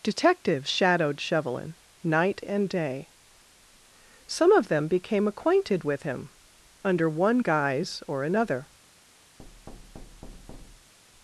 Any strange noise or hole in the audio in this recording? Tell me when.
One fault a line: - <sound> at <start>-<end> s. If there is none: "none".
- thud at 9.4-10.9 s